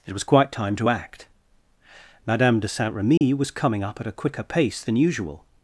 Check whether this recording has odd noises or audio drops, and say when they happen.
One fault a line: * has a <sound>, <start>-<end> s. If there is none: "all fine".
* has a dropout, 3.2-3.2 s